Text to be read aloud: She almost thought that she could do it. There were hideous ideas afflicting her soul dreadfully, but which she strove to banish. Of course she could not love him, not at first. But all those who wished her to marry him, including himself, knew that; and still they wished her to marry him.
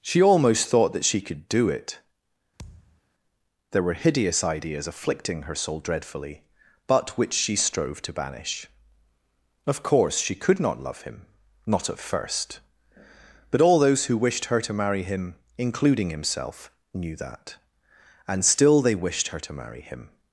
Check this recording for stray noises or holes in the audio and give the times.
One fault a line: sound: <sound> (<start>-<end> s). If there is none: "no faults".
sound: thud (2.6-3.0 s)